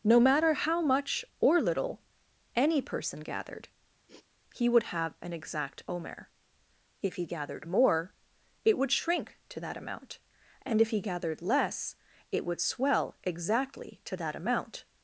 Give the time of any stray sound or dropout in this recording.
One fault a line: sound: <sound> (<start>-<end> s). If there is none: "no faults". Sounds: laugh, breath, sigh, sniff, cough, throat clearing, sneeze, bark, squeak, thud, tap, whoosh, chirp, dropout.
sound: sniff (4.1-4.3 s)